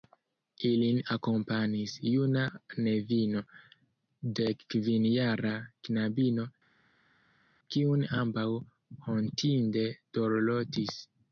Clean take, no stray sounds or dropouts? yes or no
yes